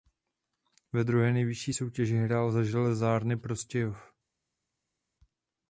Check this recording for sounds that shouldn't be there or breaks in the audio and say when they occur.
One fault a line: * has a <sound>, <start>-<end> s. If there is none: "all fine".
all fine